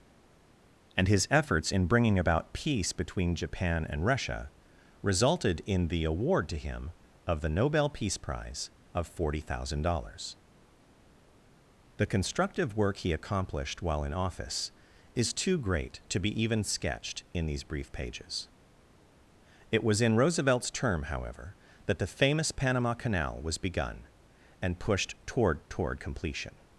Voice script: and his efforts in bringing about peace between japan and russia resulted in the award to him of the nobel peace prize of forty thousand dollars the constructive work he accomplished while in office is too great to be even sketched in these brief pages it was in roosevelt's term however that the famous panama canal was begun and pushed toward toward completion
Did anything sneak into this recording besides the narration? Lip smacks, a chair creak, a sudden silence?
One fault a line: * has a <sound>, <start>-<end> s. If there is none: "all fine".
all fine